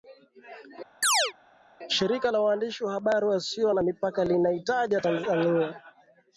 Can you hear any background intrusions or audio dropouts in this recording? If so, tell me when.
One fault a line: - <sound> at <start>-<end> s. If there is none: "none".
- chirp at 1.0-1.3 s